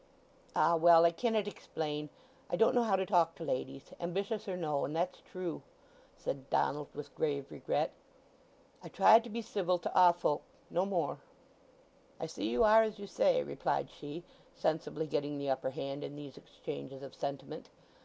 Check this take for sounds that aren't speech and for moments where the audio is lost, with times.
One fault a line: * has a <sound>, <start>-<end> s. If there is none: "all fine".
all fine